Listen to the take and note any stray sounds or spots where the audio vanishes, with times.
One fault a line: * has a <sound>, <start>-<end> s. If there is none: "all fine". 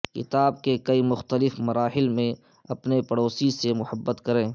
all fine